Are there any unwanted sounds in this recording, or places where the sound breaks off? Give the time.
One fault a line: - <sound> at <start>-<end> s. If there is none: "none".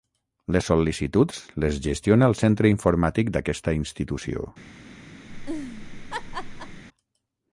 - laugh at 5.3-6.8 s